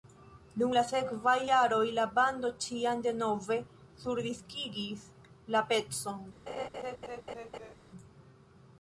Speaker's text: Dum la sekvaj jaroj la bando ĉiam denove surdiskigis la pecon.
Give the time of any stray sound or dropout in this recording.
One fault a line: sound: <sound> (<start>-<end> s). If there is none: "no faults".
sound: laugh (6.5-7.7 s)